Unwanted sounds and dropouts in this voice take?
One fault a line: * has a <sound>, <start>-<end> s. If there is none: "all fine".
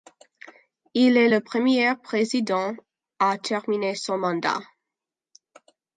all fine